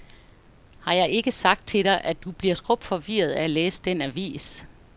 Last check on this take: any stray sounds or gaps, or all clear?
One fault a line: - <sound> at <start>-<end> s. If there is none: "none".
none